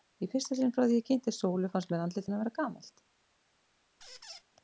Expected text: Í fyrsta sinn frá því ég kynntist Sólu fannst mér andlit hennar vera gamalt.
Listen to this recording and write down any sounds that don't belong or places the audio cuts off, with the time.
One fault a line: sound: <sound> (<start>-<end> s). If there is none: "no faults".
sound: squeak (4.0-4.4 s)